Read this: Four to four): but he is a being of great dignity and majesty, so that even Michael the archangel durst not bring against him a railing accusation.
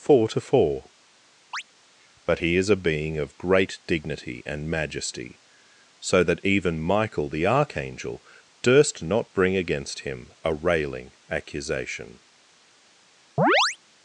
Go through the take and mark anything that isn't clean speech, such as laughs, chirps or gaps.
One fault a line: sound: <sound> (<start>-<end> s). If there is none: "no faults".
sound: chirp (1.5-1.6 s)
sound: chirp (13.4-13.8 s)